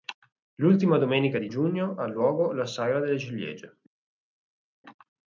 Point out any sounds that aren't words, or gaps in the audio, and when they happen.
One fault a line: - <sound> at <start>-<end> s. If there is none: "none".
none